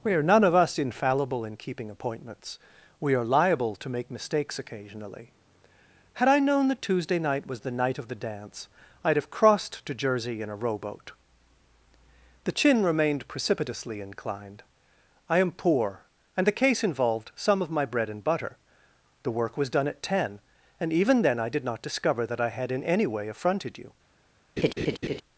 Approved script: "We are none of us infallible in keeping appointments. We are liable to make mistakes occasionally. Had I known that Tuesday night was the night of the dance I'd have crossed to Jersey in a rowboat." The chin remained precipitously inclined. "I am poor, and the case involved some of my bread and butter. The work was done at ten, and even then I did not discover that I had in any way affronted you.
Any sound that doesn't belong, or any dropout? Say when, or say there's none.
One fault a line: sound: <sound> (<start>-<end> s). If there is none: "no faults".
sound: laugh (24.6-25.2 s)